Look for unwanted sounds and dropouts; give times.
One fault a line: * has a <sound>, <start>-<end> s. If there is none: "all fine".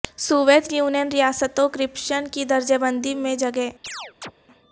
* has a chirp, 3.8-4.3 s